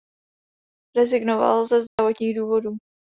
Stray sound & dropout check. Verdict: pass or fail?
fail